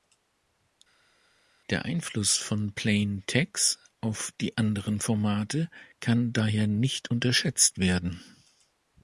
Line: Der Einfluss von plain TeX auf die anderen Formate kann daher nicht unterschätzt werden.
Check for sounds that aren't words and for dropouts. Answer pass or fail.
pass